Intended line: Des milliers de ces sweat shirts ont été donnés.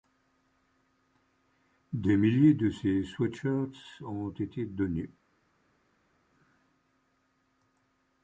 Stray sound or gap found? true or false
false